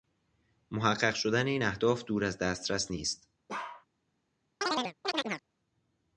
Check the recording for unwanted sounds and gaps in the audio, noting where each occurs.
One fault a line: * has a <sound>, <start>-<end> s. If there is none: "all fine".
* has a bark, 3.5-3.9 s
* has a chirp, 4.6-5.4 s